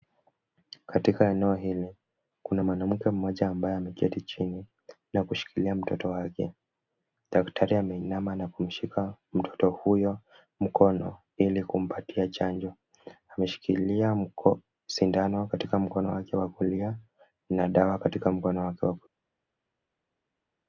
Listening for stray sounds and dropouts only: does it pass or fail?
pass